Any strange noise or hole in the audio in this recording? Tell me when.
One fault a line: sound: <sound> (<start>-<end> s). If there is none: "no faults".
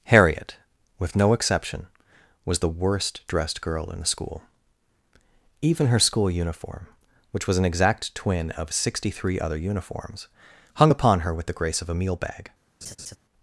sound: laugh (12.8-13.2 s)